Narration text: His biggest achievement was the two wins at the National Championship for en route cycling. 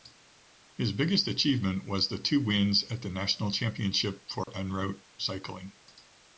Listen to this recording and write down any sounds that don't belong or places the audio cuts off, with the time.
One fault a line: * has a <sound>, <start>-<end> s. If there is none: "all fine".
* has a dropout, 4.4-4.5 s